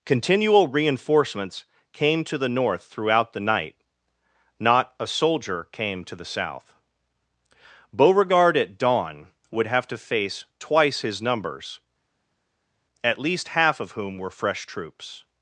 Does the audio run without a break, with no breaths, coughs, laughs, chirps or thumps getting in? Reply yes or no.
yes